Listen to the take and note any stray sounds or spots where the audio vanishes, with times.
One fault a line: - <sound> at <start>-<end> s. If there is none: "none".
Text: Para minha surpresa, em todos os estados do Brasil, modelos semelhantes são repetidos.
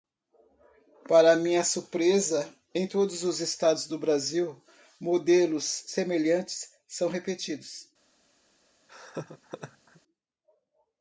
- laugh at 8.9-10.0 s